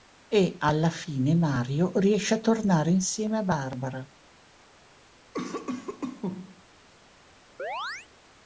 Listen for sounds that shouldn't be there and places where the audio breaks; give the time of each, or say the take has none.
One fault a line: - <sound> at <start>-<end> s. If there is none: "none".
- cough at 5.3-6.6 s
- chirp at 7.6-8.1 s